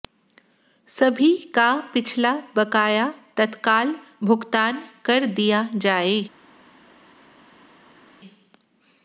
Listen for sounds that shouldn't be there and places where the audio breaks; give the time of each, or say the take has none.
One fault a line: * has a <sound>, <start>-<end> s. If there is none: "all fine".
all fine